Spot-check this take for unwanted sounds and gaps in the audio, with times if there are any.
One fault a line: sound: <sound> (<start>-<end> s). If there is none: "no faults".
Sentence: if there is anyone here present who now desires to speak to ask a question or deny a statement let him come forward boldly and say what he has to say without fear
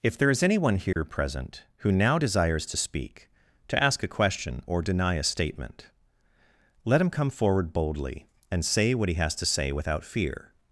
sound: dropout (0.9-1.0 s)